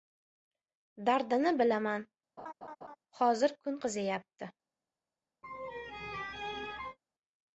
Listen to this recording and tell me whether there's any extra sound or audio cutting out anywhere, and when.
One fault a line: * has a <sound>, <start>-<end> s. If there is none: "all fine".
* has a laugh, 2.4-3.0 s
* has a laugh, 5.4-7.0 s